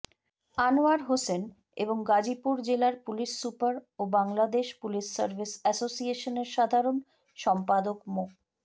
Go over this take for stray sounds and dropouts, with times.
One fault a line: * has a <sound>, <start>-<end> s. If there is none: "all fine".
all fine